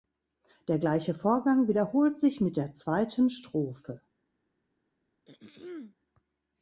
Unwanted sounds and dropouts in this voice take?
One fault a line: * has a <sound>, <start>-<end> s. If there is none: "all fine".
* has a throat clearing, 5.2-6.0 s